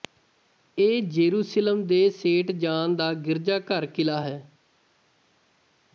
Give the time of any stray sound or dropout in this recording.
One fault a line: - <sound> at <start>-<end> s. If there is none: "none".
none